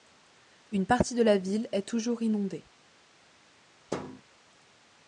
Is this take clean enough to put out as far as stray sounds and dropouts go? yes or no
no